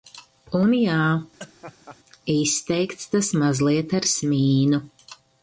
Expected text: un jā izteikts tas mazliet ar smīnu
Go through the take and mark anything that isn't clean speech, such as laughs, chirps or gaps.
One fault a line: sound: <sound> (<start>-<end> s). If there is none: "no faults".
sound: laugh (1.4-2.0 s)